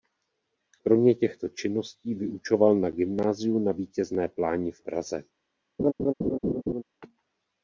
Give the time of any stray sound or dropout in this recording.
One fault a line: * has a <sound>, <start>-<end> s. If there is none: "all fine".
* has a laugh, 5.8-6.8 s